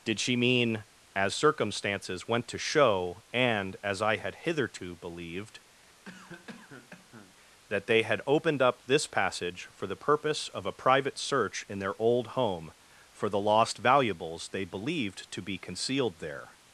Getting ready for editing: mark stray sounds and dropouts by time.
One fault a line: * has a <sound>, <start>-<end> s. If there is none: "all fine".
* has a cough, 6.1-7.3 s